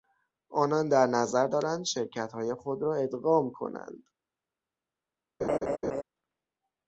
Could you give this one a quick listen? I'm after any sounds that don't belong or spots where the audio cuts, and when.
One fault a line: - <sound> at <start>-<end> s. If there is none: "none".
- laugh at 5.4-6.0 s